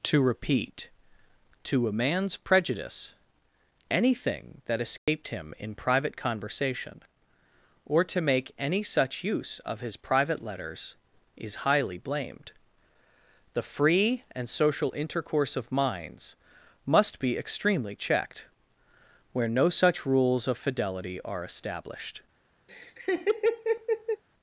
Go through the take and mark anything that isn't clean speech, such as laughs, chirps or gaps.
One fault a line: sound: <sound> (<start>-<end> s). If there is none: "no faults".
sound: dropout (5.0-5.1 s)
sound: laugh (22.7-24.2 s)